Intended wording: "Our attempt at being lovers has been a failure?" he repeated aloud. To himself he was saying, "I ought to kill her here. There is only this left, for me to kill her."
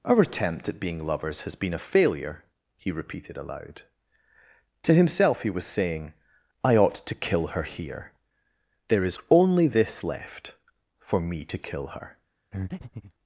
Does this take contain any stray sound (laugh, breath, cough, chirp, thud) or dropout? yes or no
yes